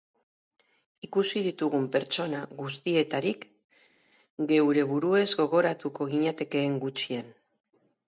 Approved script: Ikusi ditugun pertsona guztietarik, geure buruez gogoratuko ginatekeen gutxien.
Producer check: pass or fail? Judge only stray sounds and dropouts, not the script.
pass